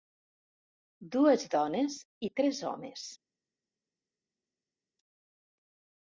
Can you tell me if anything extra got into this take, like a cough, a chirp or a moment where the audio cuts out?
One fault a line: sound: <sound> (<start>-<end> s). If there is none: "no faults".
no faults